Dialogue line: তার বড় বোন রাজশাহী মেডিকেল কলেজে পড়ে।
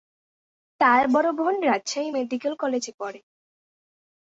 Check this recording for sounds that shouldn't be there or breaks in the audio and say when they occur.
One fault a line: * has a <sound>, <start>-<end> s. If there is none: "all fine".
all fine